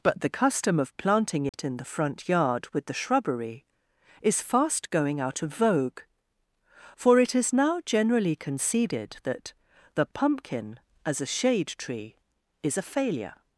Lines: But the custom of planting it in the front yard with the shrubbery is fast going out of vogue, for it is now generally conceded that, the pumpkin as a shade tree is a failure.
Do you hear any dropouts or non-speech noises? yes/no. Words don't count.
yes